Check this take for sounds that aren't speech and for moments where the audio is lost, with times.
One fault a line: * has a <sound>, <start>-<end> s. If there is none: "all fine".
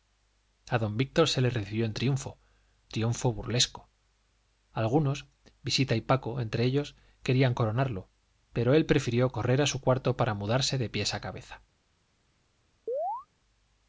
* has a chirp, 12.9-13.3 s